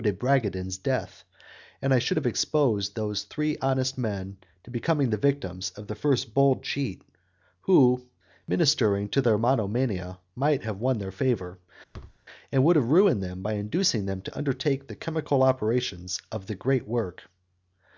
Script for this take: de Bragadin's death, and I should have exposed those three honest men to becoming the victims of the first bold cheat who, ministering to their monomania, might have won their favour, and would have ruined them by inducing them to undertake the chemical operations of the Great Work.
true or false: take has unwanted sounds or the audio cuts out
true